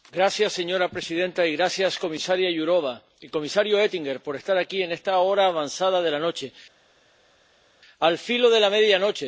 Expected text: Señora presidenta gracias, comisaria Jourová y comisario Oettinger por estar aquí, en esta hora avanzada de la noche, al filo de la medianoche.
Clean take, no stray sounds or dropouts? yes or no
yes